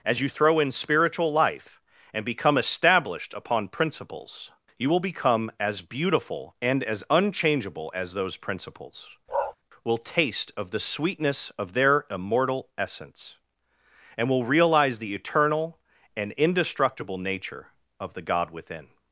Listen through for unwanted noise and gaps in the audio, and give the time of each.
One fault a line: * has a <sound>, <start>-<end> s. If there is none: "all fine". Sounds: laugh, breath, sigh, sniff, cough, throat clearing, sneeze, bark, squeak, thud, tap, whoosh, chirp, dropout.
* has a bark, 9.3-9.6 s